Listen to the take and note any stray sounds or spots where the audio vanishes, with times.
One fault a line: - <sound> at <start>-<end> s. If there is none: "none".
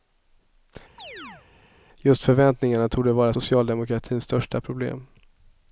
- chirp at 1.0-1.5 s